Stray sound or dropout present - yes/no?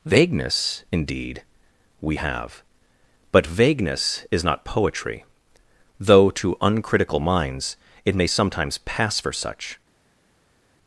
no